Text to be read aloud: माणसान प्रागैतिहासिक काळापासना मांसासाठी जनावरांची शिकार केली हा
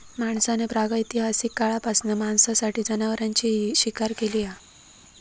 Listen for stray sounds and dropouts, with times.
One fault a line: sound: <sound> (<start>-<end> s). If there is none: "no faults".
no faults